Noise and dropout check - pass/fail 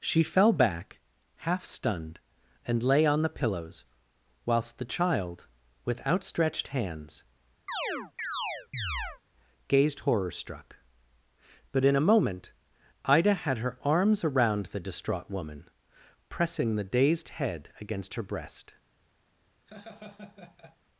fail